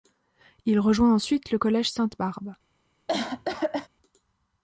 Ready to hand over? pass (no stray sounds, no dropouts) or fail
fail